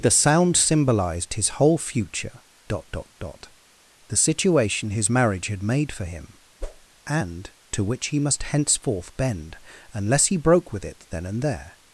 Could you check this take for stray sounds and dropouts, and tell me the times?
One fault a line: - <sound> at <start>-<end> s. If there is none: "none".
- whoosh at 6.6-6.9 s